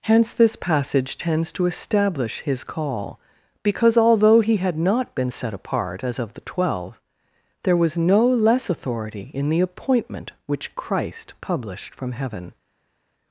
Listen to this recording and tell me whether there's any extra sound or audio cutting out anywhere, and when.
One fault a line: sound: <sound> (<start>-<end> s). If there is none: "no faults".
no faults